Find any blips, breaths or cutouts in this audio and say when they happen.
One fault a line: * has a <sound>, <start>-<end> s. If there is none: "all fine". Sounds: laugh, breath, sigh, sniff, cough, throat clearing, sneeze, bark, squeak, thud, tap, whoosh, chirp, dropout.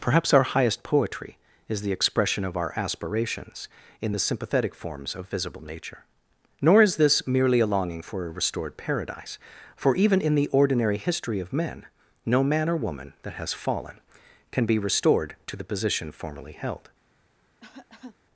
* has a cough, 17.6-18.2 s